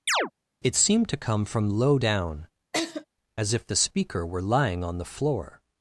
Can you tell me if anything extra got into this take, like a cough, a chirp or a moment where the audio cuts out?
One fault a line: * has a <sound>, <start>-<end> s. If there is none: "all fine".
* has a chirp, 0.1-0.3 s
* has a laugh, 2.7-3.0 s